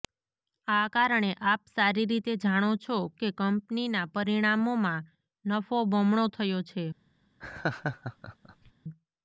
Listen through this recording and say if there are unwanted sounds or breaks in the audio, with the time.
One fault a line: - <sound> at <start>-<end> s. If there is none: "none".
- laugh at 7.4-8.7 s